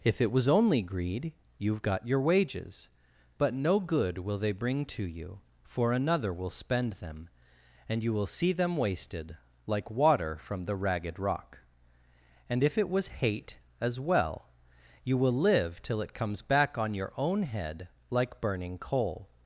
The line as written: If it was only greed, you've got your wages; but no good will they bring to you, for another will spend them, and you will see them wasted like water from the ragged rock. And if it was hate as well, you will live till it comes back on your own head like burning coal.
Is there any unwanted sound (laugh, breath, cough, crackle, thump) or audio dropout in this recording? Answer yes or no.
no